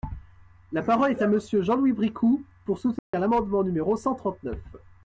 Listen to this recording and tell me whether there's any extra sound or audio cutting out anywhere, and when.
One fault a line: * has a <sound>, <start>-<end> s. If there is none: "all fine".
* has a dropout, 3.0-3.1 s